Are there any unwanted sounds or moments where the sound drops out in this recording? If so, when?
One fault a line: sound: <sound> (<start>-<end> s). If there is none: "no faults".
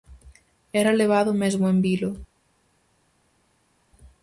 no faults